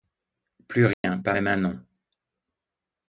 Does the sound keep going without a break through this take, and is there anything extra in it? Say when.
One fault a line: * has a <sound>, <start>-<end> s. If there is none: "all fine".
* has a dropout, 0.9-1.0 s